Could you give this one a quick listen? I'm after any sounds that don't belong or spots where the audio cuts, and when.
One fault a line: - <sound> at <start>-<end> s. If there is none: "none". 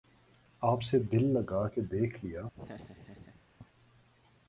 - laugh at 2.5-3.5 s